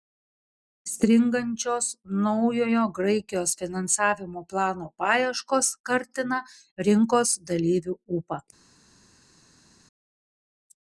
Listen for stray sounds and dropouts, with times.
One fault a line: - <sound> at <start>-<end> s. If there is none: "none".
none